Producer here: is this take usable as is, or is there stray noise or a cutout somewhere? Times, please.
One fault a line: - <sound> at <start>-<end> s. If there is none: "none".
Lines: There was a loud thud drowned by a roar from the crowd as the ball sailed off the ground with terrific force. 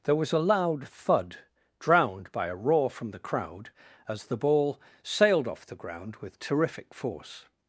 none